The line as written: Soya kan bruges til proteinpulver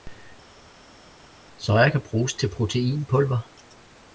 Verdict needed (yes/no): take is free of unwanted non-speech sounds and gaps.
yes